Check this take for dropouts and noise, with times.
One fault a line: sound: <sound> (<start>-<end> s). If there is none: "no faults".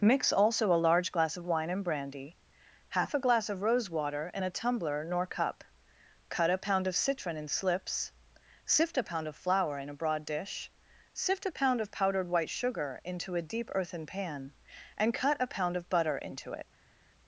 no faults